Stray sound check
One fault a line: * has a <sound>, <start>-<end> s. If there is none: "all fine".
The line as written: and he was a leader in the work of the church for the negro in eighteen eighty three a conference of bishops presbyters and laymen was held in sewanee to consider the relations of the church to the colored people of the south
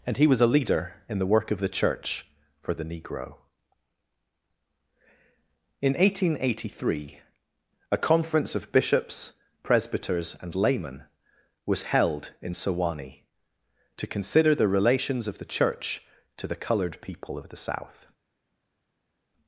all fine